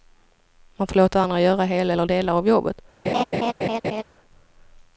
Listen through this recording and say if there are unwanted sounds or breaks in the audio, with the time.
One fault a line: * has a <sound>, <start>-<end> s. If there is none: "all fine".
* has a laugh, 3.0-4.0 s